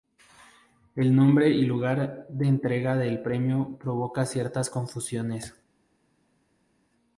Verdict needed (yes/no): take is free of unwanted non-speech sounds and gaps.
yes